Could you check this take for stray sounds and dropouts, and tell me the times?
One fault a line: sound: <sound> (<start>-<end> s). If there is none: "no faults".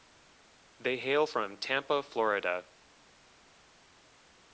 no faults